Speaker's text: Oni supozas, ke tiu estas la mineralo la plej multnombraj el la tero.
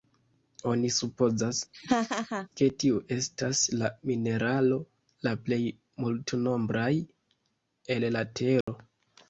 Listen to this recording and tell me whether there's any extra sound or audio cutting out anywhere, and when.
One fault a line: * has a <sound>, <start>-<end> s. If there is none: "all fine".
* has a laugh, 1.7-2.5 s
* has a dropout, 8.6-8.7 s